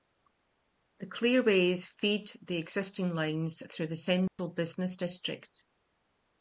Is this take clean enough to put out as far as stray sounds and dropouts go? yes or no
no